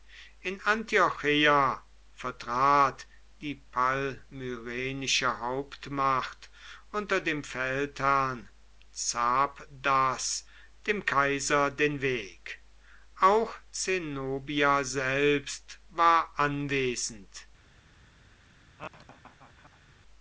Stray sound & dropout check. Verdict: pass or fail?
fail